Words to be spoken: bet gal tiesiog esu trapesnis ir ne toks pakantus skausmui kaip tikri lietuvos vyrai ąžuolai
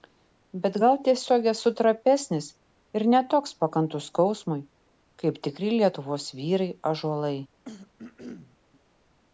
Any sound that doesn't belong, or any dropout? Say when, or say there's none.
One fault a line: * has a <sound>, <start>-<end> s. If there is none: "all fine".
* has a throat clearing, 7.7-8.6 s